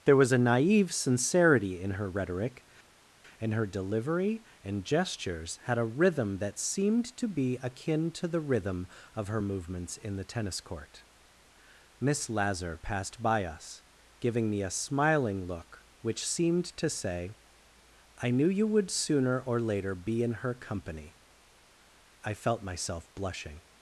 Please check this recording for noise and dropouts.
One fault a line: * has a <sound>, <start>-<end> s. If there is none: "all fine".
all fine